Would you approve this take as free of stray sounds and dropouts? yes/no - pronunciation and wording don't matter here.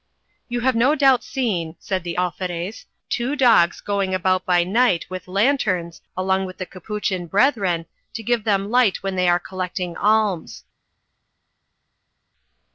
yes